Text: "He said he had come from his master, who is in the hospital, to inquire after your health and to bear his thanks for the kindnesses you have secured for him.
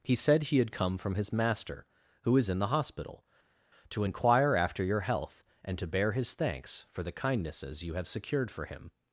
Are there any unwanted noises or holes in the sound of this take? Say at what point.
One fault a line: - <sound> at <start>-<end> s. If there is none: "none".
none